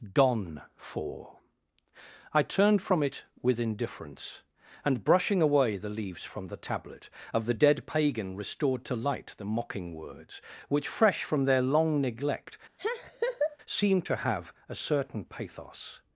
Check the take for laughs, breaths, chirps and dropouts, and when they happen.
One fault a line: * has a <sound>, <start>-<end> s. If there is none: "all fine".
* has a laugh, 12.8-13.6 s